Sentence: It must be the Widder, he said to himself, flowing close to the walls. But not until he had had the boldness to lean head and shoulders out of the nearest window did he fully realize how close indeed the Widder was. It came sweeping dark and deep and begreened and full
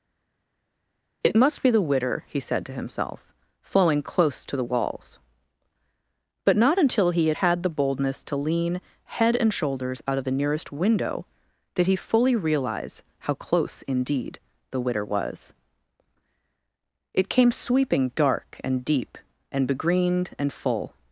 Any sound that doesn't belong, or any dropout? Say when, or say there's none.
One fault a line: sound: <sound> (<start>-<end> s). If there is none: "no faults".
no faults